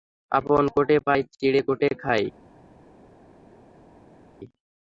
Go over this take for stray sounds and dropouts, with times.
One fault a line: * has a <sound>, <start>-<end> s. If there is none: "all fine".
all fine